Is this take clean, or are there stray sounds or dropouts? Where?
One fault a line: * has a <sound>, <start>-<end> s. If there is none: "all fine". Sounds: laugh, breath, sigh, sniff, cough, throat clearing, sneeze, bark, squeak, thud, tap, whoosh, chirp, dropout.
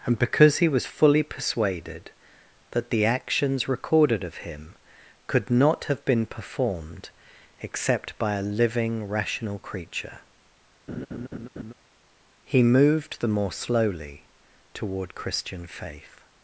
* has a laugh, 10.9-11.7 s